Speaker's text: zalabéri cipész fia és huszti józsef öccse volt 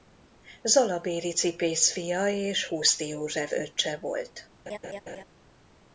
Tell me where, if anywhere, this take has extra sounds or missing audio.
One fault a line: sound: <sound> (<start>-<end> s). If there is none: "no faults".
sound: laugh (4.7-5.2 s)